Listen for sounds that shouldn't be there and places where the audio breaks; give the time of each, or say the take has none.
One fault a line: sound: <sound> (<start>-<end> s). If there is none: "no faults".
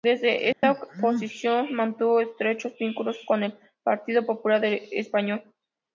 sound: dropout (0.5-0.6 s)